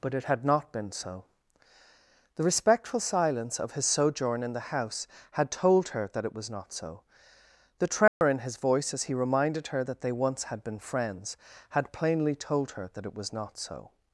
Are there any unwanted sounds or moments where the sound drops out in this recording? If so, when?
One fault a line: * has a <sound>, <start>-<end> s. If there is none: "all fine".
* has a dropout, 8.1-8.2 s